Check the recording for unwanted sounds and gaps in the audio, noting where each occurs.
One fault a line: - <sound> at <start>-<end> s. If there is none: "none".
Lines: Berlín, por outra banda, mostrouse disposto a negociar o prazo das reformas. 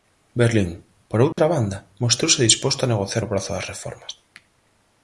- dropout at 1.3-1.4 s